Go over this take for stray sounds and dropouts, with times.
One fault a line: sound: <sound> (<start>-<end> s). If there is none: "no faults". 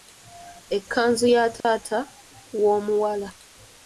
sound: dropout (1.6-1.6 s)